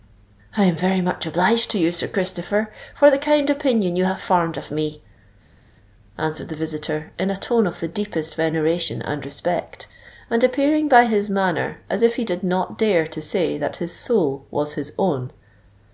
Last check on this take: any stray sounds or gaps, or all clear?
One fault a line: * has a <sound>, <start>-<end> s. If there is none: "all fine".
all fine